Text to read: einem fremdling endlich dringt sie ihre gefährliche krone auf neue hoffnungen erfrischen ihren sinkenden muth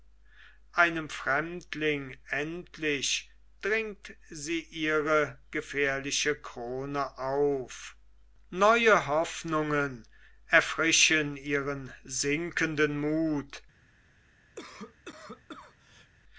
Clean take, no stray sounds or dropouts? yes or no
no